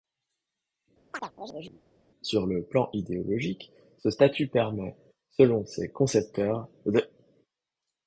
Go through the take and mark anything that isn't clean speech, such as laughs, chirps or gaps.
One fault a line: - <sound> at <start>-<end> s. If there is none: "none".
- chirp at 1.1-1.8 s